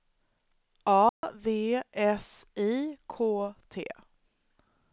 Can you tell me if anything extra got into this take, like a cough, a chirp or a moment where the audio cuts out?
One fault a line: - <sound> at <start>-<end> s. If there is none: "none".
- dropout at 1.1-1.2 s